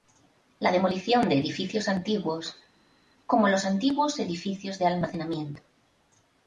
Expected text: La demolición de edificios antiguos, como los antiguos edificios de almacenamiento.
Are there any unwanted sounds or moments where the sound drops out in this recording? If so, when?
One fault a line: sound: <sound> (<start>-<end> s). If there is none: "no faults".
no faults